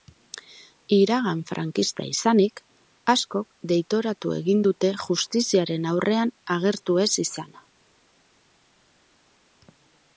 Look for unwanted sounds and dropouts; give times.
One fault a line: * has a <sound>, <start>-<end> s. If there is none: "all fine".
all fine